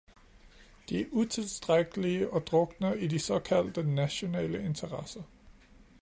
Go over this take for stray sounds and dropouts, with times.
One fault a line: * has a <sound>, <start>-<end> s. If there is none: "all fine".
all fine